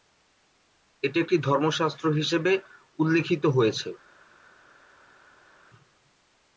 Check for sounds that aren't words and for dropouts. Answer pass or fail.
pass